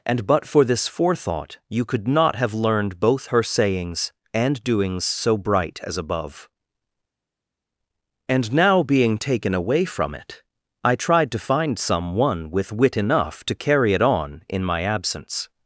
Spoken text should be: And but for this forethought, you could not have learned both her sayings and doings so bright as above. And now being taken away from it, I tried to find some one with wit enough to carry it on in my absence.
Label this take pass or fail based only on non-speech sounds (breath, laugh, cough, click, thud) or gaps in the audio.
pass